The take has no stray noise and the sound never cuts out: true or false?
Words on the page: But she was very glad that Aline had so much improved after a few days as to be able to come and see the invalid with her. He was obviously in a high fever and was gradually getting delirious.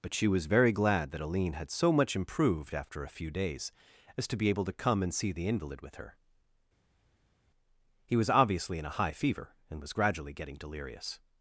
true